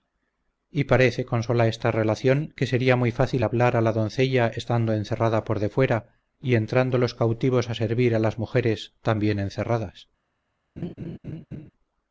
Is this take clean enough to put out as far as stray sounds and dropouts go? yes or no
no